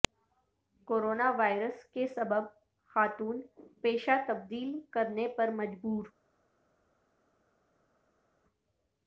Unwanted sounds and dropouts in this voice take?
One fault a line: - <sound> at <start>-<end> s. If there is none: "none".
none